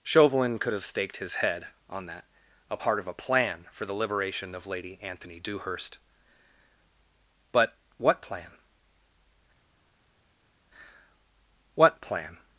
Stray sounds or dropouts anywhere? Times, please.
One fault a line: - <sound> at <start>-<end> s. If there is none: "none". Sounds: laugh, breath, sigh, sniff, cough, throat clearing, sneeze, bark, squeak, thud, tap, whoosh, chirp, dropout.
none